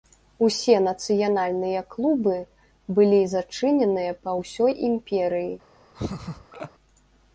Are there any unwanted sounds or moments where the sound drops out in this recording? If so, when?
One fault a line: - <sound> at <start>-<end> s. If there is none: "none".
- laugh at 5.9-6.7 s